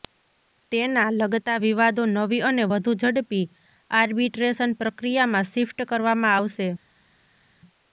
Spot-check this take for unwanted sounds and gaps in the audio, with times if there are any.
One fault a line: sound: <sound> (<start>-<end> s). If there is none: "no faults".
no faults